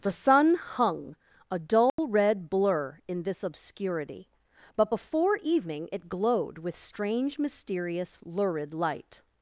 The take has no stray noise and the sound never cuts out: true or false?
false